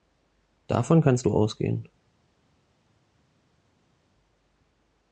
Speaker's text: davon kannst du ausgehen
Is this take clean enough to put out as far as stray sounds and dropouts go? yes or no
yes